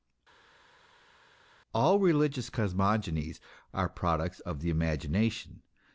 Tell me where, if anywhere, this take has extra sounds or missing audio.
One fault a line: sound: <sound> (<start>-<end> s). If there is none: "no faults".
no faults